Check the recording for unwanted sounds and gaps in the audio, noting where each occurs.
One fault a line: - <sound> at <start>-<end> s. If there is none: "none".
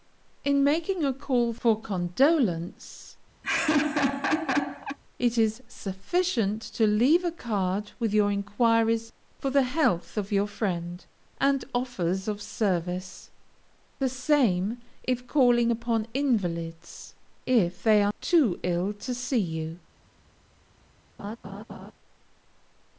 - laugh at 3.4-5.0 s
- laugh at 21.2-21.9 s